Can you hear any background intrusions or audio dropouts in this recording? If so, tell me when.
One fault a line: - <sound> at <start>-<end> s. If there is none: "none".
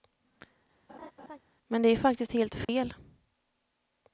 - laugh at 0.9-1.4 s
- dropout at 2.6-2.7 s